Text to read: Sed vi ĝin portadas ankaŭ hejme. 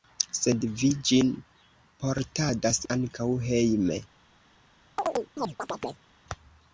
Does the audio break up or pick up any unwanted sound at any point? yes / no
yes